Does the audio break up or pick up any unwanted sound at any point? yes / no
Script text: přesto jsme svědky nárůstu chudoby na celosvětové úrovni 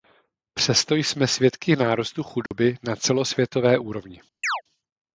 yes